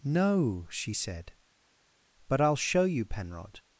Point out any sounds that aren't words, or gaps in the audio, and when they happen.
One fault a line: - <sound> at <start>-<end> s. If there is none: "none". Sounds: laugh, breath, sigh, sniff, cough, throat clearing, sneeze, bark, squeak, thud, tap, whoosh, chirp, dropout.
none